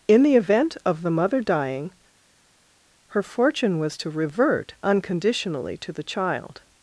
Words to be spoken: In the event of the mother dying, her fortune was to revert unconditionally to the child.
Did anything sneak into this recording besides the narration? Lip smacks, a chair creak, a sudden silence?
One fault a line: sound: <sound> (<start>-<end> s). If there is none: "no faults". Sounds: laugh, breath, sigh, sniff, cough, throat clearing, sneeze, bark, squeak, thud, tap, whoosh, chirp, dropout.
no faults